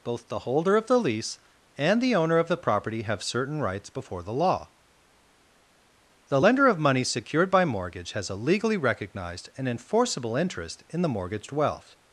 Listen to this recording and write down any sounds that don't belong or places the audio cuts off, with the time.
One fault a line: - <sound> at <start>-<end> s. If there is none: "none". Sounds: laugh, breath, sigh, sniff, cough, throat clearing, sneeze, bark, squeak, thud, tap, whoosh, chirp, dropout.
none